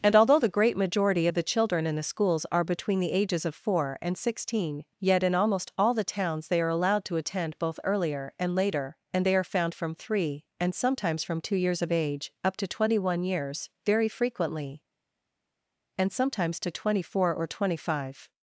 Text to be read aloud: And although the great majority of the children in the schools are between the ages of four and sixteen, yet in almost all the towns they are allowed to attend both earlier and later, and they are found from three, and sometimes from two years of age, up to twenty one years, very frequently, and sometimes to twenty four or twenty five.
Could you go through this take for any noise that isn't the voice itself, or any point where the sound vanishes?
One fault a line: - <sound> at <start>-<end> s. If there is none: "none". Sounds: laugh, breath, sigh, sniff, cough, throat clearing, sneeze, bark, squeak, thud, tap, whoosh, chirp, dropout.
none